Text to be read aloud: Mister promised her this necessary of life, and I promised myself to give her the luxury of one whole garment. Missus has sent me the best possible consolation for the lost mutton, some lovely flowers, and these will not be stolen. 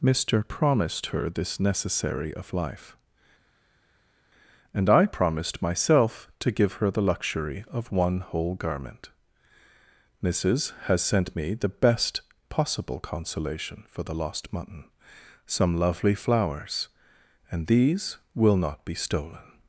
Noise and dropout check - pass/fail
pass